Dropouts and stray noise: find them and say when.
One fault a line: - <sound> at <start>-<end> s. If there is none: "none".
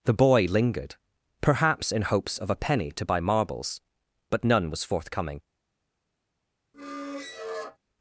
- squeak at 6.7-7.8 s